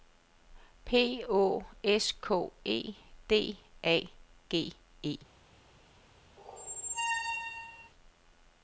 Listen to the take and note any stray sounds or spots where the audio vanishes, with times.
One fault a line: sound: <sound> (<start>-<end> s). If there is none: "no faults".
sound: squeak (6.4-7.9 s)